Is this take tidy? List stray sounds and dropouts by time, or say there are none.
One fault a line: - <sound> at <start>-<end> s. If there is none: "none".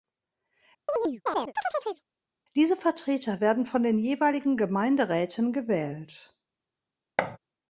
- chirp at 0.9-2.0 s
- thud at 7.2-7.4 s